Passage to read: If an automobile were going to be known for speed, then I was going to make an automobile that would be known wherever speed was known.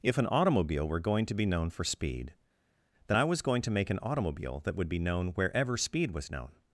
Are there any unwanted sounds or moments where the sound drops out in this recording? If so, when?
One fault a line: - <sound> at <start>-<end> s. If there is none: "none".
none